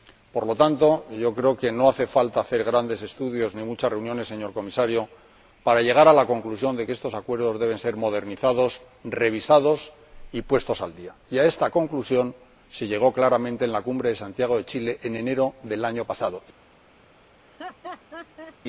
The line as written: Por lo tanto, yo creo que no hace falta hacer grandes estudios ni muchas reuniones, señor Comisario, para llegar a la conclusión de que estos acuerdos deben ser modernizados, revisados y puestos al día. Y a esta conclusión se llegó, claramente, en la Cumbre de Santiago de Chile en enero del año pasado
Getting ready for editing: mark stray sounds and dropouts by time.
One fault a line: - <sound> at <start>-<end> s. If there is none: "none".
- laugh at 17.4-18.6 s